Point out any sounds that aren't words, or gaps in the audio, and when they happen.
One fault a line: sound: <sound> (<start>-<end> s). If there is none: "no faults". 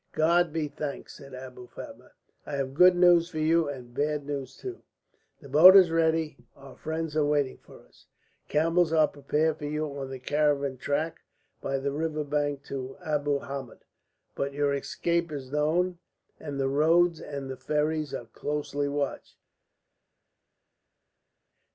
no faults